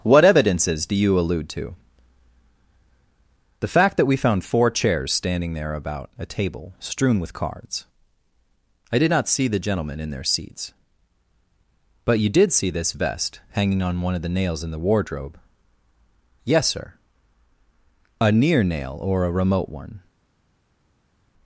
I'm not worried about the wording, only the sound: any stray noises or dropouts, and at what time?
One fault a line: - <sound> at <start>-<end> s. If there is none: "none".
none